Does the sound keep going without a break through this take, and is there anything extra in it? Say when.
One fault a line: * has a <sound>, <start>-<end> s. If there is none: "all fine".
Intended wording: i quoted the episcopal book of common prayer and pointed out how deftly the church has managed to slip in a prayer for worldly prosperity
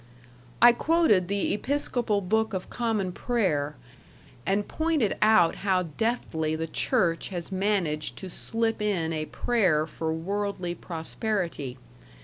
all fine